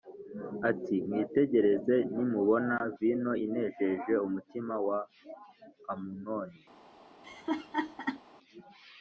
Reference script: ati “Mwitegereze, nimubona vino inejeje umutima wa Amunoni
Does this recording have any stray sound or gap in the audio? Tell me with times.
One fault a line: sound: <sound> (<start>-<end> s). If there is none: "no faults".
sound: laugh (7.2-8.2 s)